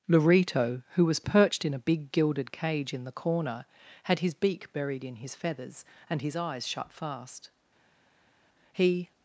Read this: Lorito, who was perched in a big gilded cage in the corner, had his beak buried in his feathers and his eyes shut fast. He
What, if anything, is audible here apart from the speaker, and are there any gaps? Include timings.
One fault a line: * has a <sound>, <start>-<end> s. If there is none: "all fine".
all fine